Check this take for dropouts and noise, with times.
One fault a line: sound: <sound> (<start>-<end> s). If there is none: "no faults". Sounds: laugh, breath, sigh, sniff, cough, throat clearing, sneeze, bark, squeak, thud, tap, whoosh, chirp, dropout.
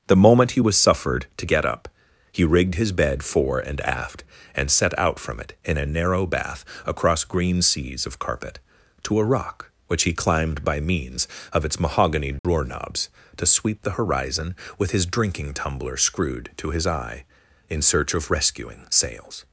sound: dropout (12.4-12.4 s)